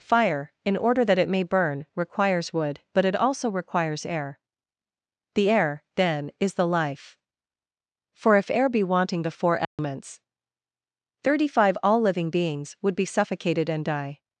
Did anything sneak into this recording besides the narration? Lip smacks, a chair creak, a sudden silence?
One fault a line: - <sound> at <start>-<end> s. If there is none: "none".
- dropout at 9.6-9.8 s